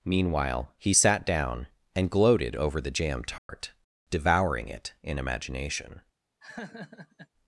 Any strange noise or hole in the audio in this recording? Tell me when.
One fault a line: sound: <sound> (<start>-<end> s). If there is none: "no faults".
sound: dropout (3.4-3.5 s)
sound: laugh (6.4-7.3 s)